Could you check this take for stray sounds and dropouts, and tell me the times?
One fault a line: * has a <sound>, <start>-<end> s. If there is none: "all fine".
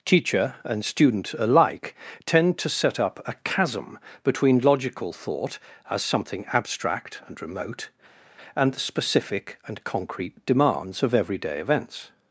all fine